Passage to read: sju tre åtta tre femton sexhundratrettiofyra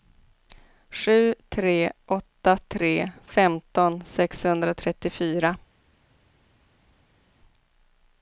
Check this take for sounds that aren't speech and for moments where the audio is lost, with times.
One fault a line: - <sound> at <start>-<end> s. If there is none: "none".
none